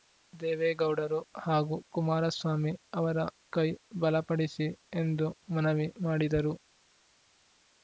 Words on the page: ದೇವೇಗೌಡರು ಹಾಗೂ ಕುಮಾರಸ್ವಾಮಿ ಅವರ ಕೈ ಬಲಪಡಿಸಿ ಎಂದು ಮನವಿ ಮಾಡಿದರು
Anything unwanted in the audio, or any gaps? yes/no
no